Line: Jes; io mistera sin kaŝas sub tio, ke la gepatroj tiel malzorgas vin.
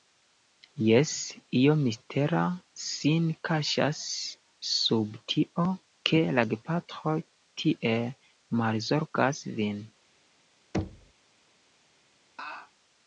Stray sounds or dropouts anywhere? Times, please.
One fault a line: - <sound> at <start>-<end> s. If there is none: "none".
- thud at 10.7-11.1 s
- laugh at 12.4-12.7 s